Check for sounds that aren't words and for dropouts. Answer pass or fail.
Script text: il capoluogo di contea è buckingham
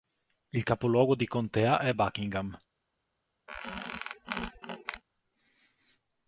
fail